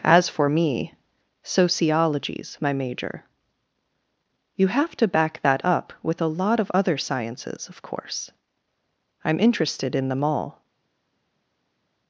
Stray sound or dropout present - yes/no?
no